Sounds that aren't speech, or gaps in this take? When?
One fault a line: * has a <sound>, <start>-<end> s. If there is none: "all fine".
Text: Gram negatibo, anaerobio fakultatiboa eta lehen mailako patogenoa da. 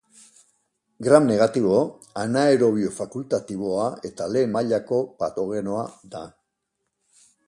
all fine